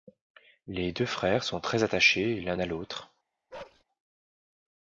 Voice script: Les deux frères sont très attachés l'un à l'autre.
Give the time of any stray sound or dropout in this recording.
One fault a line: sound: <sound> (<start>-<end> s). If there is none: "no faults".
sound: bark (3.5-3.8 s)